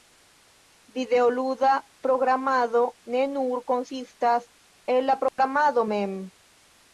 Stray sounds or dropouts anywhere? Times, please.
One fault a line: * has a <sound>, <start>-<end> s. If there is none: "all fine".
* has a dropout, 5.3-5.4 s